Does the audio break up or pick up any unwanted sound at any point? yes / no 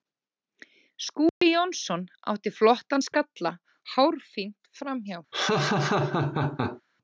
yes